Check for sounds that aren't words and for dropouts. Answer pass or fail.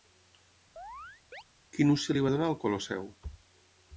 fail